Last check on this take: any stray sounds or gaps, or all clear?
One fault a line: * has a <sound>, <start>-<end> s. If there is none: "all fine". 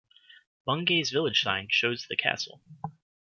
all fine